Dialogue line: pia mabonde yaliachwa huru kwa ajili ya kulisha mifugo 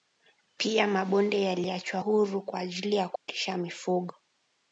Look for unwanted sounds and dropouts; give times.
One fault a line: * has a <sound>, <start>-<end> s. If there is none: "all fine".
* has a dropout, 3.2-3.3 s